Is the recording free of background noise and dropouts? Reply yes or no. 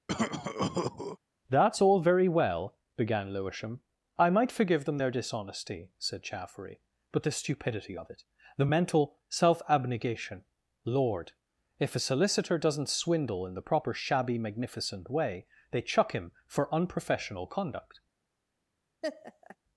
no